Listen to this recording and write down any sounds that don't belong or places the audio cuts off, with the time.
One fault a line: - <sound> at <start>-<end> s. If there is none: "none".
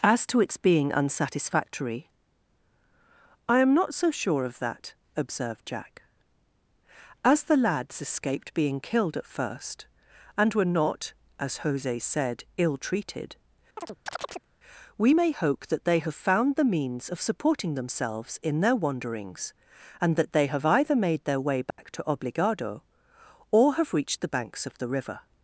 - chirp at 13.8-14.5 s
- dropout at 21.7-21.8 s